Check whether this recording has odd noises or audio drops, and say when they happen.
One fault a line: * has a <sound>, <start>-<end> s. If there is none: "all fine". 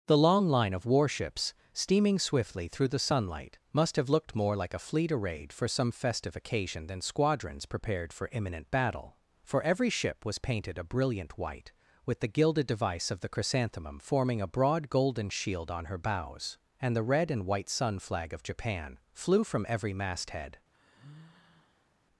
* has a sigh, 20.7-21.9 s